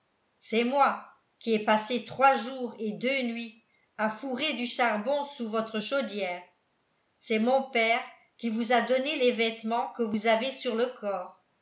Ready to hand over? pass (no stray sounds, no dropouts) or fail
pass